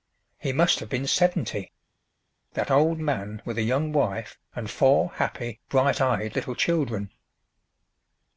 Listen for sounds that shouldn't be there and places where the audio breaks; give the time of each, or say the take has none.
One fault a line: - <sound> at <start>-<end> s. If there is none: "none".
none